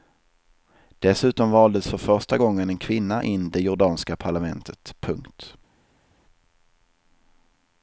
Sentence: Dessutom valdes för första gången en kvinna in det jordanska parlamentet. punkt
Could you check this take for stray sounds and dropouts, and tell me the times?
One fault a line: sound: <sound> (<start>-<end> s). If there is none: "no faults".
no faults